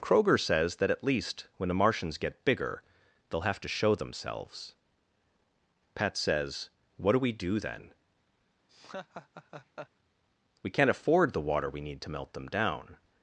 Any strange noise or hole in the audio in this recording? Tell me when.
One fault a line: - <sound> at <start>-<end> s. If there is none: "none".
- laugh at 8.7-9.9 s